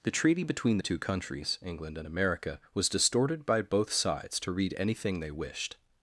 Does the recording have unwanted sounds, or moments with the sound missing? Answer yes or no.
no